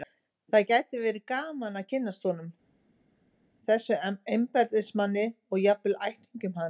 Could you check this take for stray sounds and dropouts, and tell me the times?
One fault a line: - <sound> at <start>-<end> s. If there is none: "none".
none